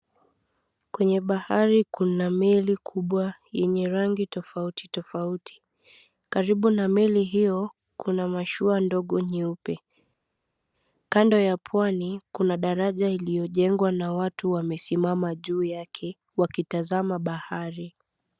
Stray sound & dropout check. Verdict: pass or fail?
pass